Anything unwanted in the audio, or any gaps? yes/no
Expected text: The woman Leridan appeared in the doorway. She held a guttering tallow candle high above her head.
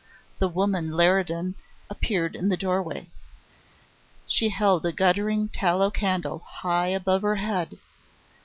no